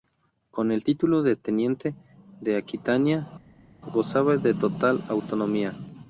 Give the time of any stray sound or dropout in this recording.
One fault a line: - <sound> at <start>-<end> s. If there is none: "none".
none